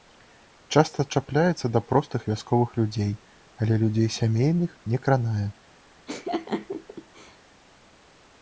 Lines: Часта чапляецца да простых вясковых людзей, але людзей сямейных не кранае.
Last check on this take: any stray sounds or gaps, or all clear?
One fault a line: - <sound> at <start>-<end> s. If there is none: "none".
- laugh at 6.1-7.4 s